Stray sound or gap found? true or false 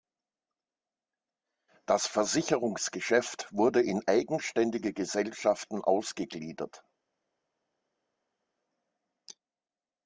false